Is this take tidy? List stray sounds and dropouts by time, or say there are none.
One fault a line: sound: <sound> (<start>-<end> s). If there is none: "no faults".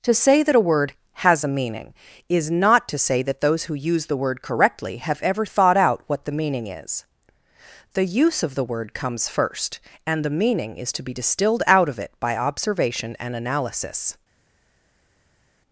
no faults